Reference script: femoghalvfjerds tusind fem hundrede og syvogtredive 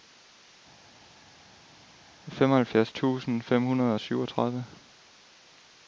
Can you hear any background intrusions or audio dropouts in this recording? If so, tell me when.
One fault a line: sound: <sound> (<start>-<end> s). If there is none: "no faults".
no faults